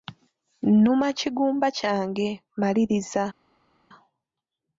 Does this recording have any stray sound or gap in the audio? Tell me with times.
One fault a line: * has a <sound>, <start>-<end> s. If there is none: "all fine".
all fine